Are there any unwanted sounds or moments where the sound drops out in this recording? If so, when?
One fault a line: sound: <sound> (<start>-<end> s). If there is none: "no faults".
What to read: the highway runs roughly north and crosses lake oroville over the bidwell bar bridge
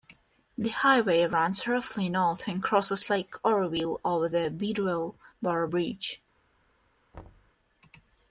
sound: thud (7.1-7.5 s)